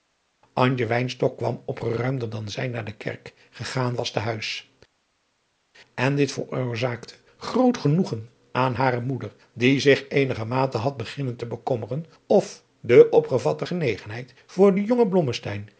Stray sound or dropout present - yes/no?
no